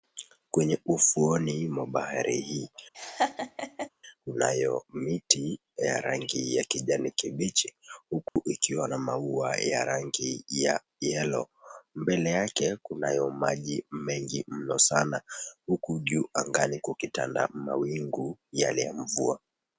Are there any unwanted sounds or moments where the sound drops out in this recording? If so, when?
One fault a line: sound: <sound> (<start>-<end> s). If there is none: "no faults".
sound: laugh (2.9-3.9 s)
sound: dropout (8.3-8.4 s)